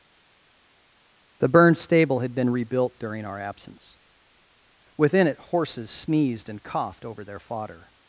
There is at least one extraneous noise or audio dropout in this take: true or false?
false